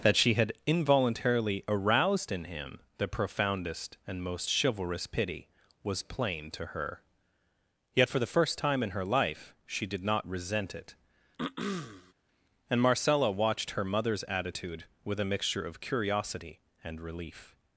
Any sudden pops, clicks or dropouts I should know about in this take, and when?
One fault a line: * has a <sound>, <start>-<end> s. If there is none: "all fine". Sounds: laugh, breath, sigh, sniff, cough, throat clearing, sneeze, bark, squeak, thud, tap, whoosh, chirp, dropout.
* has a throat clearing, 11.4-12.1 s